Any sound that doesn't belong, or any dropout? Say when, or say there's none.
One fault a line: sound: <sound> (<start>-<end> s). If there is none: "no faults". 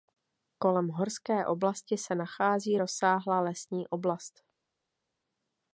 no faults